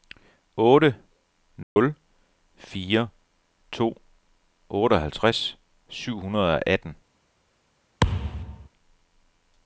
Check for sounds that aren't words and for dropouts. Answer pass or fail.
fail